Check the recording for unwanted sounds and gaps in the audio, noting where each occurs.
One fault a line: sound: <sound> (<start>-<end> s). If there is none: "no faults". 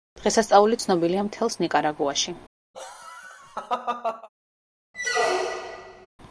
sound: laugh (2.7-4.3 s)
sound: squeak (4.9-6.1 s)